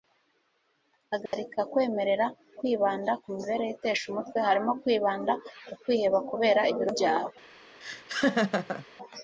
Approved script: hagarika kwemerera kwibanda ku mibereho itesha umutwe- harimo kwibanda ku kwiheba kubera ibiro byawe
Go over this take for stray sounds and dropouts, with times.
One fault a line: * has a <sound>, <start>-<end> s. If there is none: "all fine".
* has a dropout, 1.3-1.3 s
* has a laugh, 7.8-8.9 s